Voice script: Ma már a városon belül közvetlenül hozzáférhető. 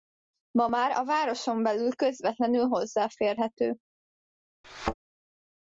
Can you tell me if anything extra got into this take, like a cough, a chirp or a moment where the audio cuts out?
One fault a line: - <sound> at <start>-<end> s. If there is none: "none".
- thud at 4.6-4.9 s